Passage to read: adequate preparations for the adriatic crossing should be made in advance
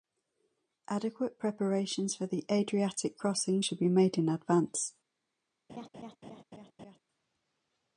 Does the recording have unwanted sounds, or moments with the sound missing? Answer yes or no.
yes